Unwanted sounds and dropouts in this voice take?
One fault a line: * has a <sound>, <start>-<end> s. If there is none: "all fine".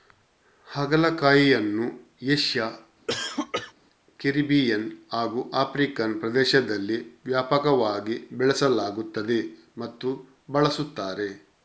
* has a cough, 3.1-3.7 s